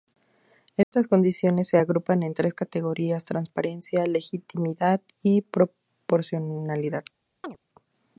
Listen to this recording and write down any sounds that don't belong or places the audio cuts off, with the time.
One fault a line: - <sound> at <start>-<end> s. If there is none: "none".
- dropout at 0.8-0.9 s
- chirp at 7.4-7.6 s